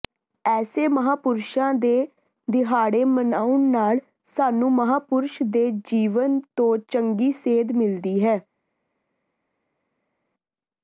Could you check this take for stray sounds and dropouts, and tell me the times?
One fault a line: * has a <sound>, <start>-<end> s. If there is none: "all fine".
all fine